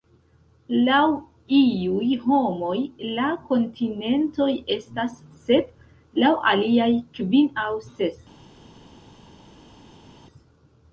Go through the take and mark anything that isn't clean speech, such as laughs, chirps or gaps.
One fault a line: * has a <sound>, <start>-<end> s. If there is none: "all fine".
all fine